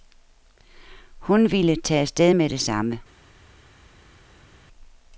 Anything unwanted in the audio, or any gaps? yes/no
no